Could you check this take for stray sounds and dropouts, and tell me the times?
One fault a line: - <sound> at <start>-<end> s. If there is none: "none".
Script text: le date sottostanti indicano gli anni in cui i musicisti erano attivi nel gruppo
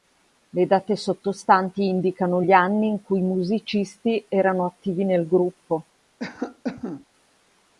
- cough at 6.2-7.1 s